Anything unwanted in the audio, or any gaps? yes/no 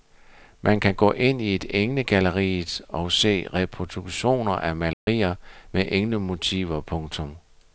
yes